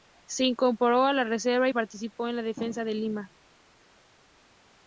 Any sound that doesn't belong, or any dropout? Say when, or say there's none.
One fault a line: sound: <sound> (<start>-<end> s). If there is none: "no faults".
no faults